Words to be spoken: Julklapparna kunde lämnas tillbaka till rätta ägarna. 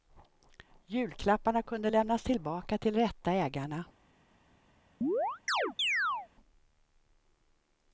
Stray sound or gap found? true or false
true